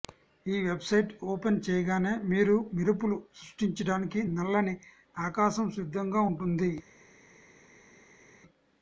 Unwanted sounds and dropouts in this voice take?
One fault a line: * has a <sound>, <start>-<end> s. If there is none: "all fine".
all fine